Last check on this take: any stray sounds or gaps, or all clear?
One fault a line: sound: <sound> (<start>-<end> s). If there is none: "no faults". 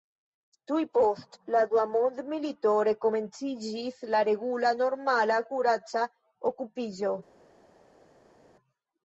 no faults